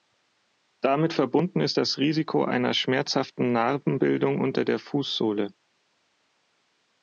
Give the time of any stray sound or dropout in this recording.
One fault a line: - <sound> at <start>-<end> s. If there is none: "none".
none